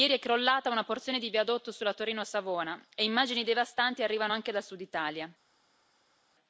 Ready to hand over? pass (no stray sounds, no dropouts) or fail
pass